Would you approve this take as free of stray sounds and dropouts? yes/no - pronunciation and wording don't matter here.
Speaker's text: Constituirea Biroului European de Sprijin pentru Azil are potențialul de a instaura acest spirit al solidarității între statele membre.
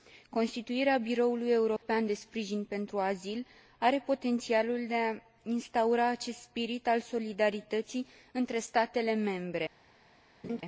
no